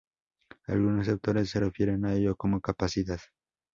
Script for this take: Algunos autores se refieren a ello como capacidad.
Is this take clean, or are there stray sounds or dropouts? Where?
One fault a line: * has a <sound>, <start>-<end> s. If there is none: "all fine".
all fine